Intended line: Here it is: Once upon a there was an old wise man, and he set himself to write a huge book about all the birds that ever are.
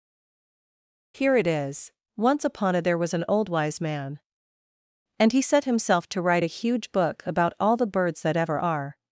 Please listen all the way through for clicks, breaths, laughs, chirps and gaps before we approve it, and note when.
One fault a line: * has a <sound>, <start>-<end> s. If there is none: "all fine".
all fine